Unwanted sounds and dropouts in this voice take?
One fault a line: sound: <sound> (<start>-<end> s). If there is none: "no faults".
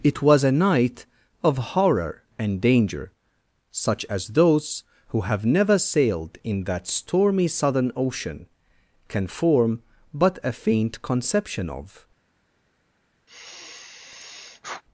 sound: sigh (13.3-14.8 s)